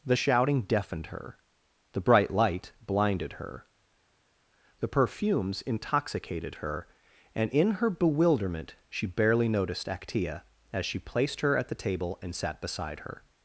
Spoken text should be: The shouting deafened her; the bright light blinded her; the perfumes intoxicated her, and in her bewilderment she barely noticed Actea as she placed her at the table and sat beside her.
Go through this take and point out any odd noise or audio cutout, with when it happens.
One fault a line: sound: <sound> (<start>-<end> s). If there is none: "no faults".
no faults